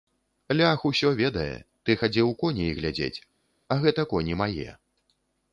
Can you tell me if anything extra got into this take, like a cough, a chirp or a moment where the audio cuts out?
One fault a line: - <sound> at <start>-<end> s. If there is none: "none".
none